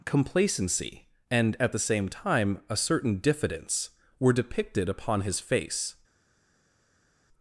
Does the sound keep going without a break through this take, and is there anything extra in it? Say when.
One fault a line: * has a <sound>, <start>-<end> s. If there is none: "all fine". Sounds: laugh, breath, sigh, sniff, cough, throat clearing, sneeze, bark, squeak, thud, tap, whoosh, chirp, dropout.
all fine